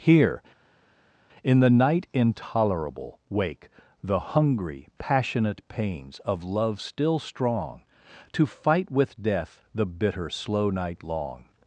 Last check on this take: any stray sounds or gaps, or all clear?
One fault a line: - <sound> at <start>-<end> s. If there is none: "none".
none